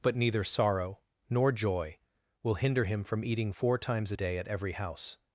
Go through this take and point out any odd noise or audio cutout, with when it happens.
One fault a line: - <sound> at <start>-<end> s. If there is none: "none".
none